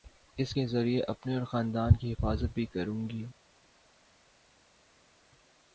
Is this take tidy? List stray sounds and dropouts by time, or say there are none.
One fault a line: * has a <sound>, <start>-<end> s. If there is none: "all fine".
all fine